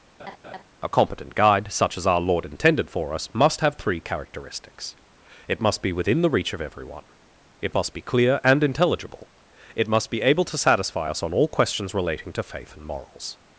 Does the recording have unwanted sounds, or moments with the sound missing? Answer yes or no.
yes